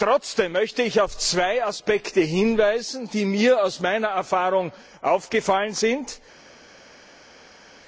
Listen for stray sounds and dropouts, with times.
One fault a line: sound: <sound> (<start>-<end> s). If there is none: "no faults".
no faults